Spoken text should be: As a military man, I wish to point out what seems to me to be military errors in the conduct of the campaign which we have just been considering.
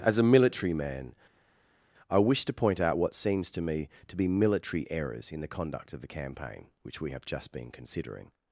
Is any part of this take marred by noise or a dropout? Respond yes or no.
no